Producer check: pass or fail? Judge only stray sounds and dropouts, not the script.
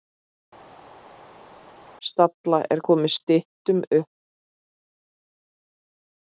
pass